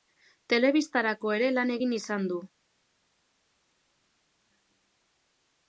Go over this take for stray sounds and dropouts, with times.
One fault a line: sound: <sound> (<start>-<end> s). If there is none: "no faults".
no faults